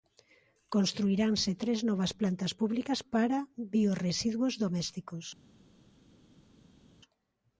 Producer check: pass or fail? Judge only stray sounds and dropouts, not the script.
pass